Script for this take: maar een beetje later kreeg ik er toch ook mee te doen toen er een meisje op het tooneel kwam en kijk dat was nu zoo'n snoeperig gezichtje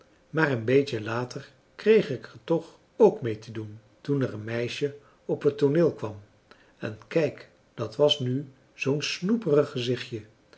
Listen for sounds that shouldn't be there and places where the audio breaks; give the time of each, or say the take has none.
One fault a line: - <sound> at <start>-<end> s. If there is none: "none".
none